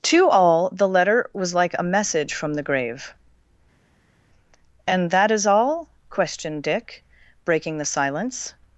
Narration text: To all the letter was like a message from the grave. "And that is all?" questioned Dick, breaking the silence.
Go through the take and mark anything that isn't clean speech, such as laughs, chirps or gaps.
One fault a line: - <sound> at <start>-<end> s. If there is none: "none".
none